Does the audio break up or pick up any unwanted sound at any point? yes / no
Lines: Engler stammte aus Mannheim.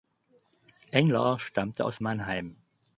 no